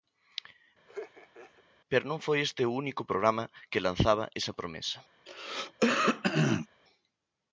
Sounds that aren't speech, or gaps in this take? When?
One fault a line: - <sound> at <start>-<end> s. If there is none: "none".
- laugh at 0.9-1.6 s
- throat clearing at 5.3-6.7 s